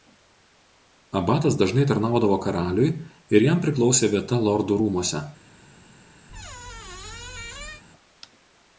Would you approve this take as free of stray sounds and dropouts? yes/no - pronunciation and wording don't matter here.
no